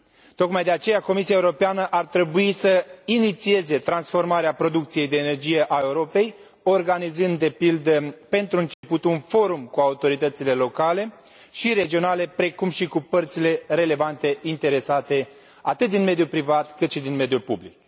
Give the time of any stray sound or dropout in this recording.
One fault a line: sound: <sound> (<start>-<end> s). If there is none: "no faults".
sound: dropout (8.7-8.8 s)